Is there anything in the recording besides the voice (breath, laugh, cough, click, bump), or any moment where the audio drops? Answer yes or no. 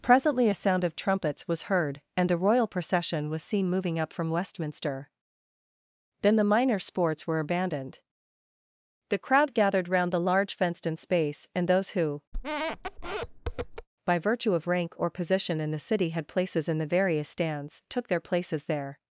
yes